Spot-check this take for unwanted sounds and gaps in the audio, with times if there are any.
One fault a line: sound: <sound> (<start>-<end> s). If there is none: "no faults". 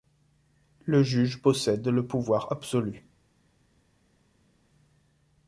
no faults